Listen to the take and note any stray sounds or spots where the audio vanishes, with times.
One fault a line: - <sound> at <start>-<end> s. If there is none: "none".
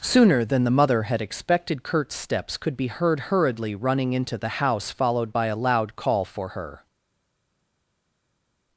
none